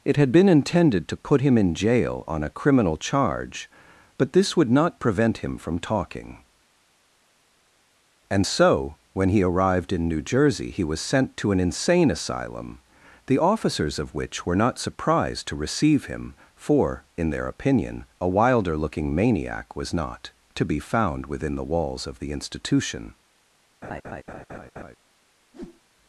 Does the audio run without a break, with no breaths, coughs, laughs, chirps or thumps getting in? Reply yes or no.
no